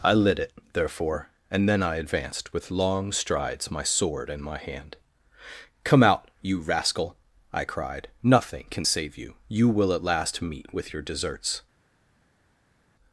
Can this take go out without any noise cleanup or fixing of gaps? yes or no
yes